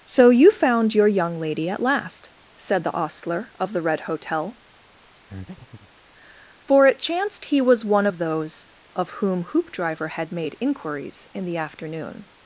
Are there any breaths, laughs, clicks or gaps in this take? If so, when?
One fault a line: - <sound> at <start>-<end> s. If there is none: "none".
- breath at 5.3-5.9 s